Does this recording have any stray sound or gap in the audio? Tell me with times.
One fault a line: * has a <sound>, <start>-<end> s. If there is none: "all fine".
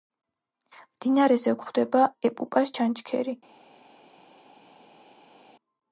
all fine